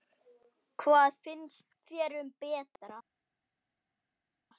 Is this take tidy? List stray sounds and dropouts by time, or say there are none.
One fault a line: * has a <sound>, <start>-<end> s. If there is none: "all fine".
all fine